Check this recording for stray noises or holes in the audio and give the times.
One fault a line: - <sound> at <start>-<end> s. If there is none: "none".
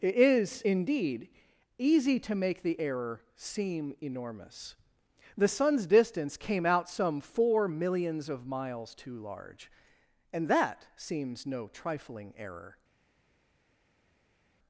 none